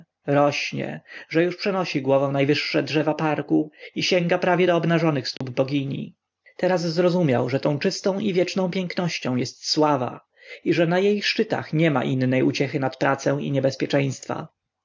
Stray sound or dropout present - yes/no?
yes